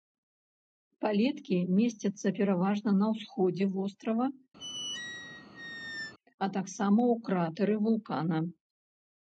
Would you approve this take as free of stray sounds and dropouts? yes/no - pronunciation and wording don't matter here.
no